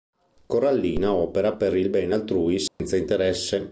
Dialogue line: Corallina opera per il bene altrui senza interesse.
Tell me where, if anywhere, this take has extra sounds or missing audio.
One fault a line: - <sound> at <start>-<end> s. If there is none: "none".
- dropout at 2.7-2.8 s